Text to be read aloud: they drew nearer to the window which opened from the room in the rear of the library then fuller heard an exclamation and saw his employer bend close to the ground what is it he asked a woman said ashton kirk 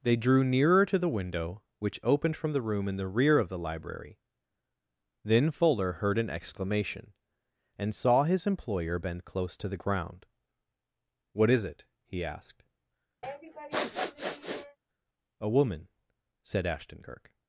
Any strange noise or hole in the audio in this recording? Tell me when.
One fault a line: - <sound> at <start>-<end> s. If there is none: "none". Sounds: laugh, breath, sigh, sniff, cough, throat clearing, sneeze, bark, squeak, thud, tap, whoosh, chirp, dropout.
- sniff at 13.2-14.8 s